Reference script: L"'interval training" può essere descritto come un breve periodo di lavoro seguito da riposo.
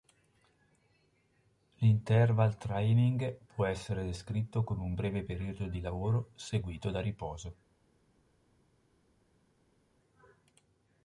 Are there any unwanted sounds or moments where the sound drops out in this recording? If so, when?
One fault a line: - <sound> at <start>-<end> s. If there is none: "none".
none